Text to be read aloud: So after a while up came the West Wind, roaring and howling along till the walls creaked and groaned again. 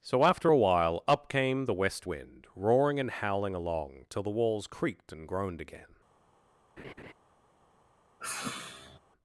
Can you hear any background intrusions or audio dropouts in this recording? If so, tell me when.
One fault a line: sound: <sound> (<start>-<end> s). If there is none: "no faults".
sound: laugh (6.8-7.1 s)
sound: sigh (8.2-9.0 s)